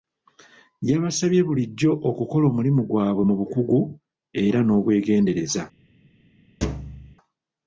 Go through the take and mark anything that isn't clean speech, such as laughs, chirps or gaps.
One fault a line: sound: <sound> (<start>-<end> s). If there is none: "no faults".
sound: thud (6.6-7.2 s)